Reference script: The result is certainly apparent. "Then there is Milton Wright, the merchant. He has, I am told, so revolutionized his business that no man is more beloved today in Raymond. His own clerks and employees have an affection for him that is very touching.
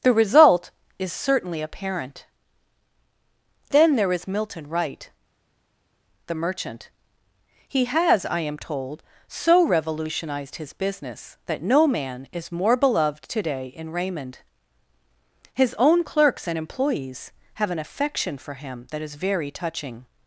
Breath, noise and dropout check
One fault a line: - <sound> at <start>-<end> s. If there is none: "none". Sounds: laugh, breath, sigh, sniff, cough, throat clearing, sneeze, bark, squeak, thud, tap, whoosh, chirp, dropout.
none